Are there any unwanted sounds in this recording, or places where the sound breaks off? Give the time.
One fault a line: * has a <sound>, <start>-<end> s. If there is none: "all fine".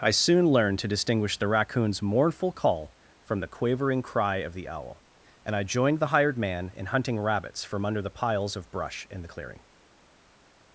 all fine